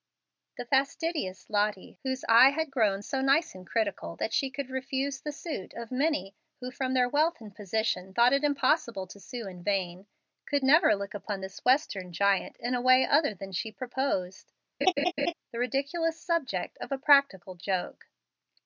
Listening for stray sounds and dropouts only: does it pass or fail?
fail